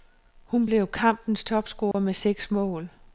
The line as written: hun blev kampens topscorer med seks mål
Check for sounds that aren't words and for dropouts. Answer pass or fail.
fail